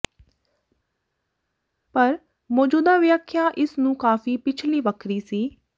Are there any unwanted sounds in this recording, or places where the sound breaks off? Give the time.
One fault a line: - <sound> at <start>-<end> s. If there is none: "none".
none